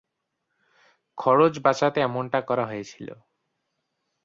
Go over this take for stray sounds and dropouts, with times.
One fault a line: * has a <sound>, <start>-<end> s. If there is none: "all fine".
all fine